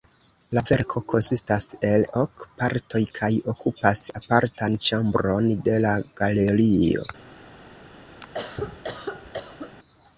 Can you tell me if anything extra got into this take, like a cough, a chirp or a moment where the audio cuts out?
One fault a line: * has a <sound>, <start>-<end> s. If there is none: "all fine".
* has a cough, 8.2-9.7 s